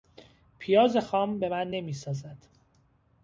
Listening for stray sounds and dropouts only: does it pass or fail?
pass